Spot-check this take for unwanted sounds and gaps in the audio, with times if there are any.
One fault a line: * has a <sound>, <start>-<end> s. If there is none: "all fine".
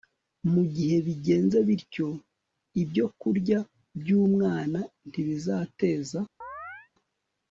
* has a chirp, 6.4-6.9 s